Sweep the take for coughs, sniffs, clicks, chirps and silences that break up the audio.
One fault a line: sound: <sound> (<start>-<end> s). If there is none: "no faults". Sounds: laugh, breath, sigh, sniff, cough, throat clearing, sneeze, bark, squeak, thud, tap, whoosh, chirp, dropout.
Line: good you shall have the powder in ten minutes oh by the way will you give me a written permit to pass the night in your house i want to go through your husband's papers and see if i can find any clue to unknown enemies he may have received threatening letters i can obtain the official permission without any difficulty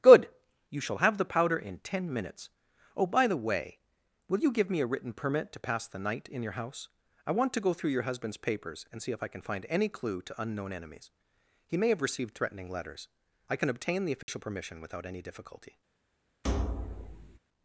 sound: dropout (14.2-14.3 s)
sound: thud (16.4-17.4 s)